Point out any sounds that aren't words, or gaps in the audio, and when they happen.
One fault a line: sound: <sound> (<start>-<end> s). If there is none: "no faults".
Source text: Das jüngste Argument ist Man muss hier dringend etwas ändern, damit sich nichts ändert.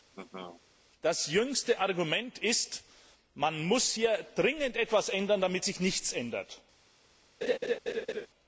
sound: laugh (0.1-0.6 s)
sound: laugh (7.4-8.3 s)